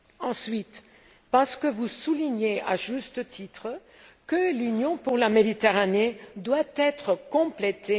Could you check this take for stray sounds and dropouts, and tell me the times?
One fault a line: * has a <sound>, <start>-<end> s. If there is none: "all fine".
all fine